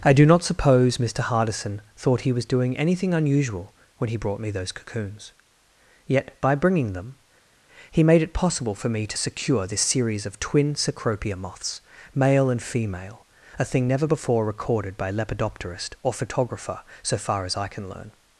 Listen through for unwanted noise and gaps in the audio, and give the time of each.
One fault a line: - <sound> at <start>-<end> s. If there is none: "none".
none